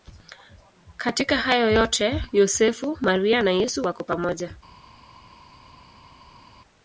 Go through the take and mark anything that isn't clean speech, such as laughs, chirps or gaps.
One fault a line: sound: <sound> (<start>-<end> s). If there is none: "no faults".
no faults